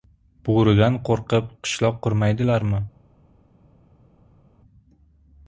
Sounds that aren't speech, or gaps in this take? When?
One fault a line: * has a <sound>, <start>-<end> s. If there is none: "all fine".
all fine